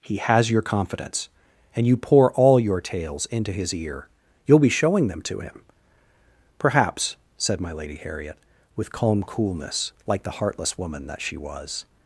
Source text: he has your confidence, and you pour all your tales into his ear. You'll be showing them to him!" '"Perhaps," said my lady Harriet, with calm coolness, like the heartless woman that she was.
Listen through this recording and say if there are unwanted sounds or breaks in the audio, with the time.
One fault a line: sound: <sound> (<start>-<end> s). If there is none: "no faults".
no faults